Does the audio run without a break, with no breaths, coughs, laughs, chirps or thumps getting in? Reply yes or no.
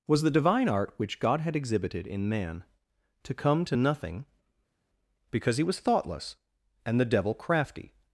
yes